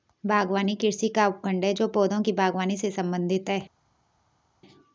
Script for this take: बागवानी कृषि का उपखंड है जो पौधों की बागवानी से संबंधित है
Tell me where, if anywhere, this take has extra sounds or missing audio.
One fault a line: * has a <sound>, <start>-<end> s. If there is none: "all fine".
all fine